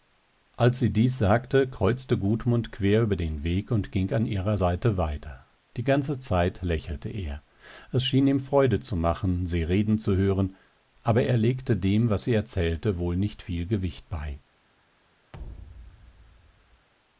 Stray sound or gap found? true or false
true